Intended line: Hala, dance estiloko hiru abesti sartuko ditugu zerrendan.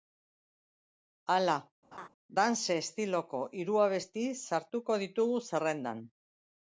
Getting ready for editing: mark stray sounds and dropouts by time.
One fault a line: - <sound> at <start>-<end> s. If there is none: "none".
- laugh at 1.9-2.1 s